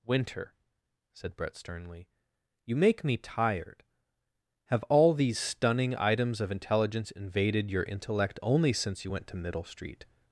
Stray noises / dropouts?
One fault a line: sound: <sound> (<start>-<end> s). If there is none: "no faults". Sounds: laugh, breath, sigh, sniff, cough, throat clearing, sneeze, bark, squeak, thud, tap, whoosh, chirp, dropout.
no faults